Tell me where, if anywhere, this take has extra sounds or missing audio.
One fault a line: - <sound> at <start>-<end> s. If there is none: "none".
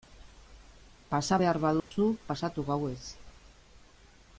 - dropout at 1.8-1.9 s